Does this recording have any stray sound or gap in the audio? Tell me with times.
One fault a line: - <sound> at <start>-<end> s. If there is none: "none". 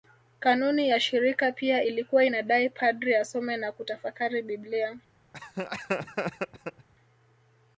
- laugh at 5.3-6.9 s